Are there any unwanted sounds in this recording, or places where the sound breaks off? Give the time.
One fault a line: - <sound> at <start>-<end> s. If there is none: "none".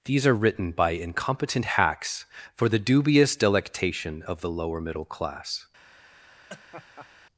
- laugh at 6.5-7.1 s